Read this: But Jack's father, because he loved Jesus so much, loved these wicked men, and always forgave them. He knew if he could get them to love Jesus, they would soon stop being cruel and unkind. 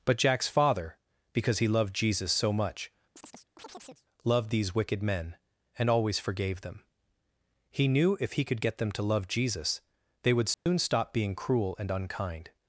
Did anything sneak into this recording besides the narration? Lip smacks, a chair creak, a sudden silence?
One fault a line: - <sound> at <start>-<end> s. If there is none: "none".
- chirp at 3.2-4.1 s
- dropout at 10.5-10.7 s